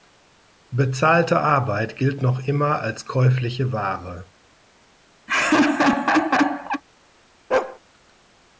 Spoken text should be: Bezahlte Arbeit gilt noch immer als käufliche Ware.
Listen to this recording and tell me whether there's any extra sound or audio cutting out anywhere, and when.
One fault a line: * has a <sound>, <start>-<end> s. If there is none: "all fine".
* has a laugh, 5.3-6.8 s
* has a bark, 7.5-7.8 s